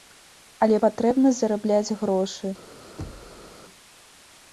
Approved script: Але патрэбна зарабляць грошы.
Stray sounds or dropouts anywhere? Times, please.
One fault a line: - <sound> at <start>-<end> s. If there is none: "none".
- thud at 3.0-3.5 s